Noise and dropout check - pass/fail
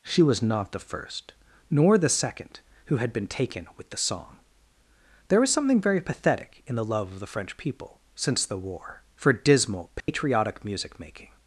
fail